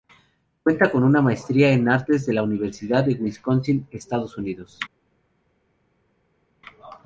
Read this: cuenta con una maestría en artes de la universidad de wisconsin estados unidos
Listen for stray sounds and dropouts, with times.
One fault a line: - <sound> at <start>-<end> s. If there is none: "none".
none